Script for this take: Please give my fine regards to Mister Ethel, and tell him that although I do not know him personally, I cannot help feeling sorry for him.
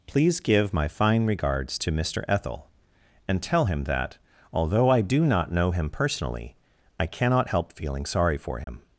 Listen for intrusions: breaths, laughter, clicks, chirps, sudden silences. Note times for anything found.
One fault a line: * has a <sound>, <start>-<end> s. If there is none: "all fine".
* has a dropout, 8.6-8.7 s